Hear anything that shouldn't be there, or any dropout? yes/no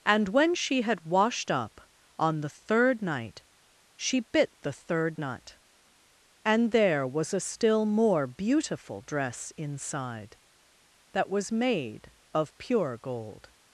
no